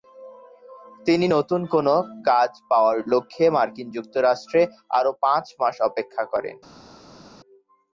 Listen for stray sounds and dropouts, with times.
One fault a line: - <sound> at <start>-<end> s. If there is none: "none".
none